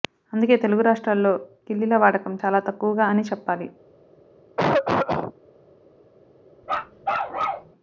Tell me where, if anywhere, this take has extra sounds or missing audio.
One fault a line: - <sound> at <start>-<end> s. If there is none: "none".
- cough at 4.6-5.3 s
- bark at 6.6-7.7 s